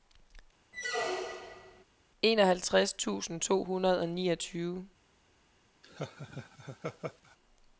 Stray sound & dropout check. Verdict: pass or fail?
fail